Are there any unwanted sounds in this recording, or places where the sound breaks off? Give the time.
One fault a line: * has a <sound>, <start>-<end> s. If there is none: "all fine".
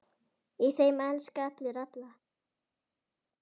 all fine